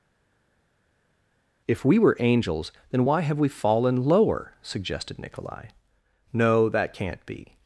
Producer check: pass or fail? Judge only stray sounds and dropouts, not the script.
pass